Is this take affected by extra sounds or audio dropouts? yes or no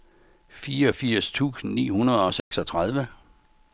yes